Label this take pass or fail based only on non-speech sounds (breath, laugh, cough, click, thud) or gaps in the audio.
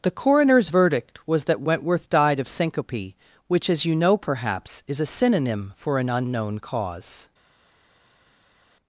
pass